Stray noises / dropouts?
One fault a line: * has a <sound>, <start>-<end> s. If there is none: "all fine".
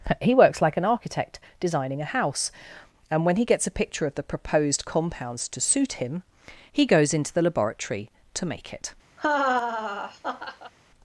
* has a laugh, 9.2-10.7 s